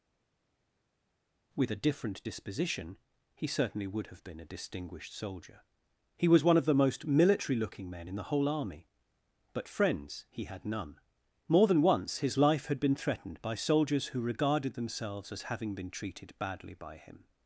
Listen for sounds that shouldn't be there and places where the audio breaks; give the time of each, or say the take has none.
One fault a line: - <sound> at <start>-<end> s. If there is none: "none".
none